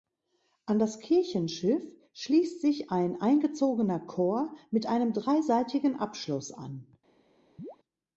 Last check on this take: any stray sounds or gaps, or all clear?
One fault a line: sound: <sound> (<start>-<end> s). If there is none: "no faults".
sound: chirp (7.6-7.8 s)